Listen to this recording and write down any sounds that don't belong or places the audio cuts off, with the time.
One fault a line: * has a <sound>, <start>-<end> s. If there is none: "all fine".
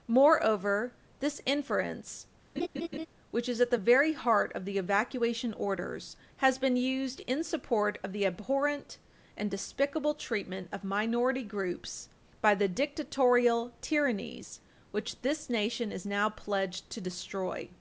* has a laugh, 2.6-3.1 s